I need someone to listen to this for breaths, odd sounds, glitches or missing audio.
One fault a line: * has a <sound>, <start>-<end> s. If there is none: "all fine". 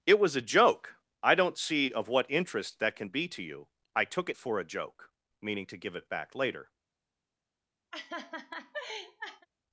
* has a laugh, 7.9-9.5 s